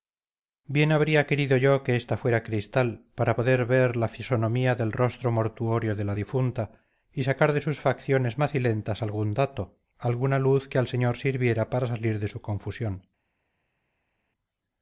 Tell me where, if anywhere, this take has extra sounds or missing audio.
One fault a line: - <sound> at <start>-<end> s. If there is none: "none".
none